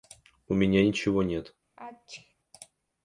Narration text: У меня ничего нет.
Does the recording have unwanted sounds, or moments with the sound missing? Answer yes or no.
yes